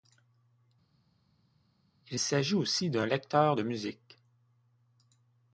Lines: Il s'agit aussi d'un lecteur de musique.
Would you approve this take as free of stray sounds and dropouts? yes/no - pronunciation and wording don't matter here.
yes